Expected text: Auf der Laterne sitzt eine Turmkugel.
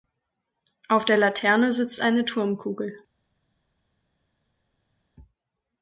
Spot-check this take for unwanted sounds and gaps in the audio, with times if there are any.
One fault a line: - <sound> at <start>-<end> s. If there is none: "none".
none